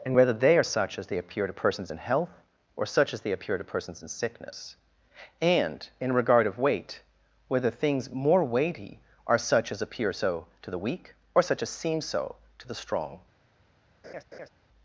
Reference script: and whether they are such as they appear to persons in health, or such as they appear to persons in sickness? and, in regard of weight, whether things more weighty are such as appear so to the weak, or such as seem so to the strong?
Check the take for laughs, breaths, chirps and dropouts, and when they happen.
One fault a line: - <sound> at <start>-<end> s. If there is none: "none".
- laugh at 14.0-14.5 s